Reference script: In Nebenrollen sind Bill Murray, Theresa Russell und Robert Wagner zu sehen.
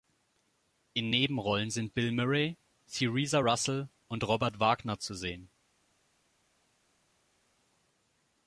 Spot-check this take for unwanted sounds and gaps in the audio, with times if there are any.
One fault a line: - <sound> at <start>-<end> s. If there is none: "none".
none